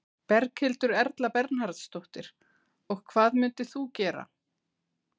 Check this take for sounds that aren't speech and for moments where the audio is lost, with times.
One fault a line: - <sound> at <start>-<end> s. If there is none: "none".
none